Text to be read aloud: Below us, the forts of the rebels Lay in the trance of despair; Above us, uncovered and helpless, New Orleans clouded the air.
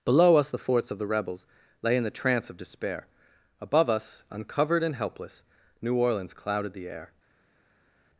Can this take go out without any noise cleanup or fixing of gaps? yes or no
yes